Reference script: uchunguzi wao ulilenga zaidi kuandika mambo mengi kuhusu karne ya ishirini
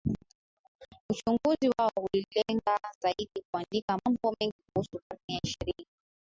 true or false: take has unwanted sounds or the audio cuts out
false